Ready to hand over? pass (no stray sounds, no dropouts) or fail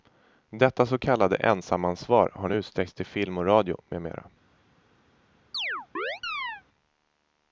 fail